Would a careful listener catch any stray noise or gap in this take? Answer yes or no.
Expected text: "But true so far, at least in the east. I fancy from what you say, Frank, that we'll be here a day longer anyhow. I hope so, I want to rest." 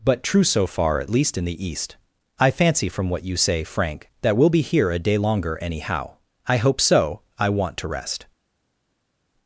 no